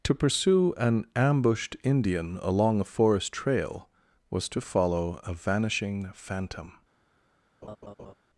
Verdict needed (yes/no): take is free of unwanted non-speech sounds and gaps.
no